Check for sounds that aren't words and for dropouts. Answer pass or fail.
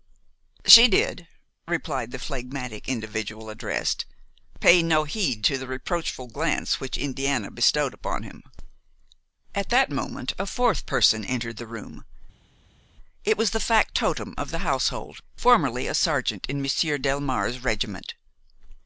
pass